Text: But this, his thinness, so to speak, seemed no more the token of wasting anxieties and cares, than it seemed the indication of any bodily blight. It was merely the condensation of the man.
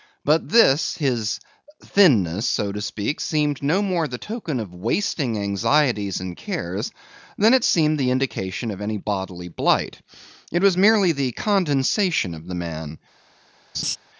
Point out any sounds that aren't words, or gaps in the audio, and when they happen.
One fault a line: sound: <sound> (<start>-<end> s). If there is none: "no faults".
sound: laugh (13.7-14.0 s)